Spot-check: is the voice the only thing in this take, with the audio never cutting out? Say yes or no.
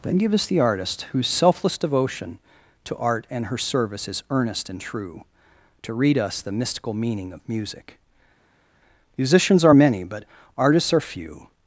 yes